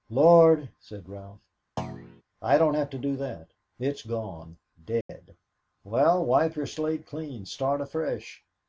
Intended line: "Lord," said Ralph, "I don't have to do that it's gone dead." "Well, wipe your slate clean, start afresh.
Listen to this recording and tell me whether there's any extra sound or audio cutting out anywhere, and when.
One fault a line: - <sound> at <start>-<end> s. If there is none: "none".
- thud at 1.8-2.2 s
- dropout at 5.0-5.1 s